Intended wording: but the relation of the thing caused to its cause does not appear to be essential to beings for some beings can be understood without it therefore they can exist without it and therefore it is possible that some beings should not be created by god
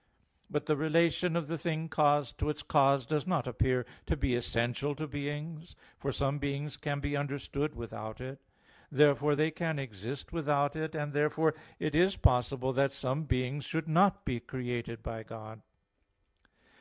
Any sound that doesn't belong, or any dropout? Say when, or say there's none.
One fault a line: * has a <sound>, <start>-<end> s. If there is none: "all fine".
all fine